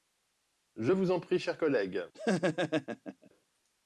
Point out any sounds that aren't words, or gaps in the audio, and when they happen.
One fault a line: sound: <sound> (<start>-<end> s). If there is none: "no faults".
sound: laugh (2.1-3.3 s)